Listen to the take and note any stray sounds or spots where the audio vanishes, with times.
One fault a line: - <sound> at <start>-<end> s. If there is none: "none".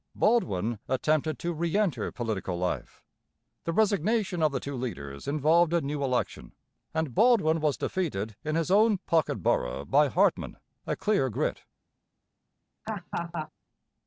- laugh at 12.8-13.5 s